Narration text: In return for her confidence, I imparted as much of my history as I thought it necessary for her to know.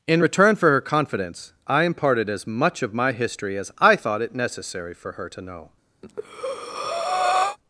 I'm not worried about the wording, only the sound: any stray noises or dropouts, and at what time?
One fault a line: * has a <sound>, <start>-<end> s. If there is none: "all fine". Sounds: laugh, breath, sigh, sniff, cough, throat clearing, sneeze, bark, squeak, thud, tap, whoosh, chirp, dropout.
* has a breath, 6.0-7.6 s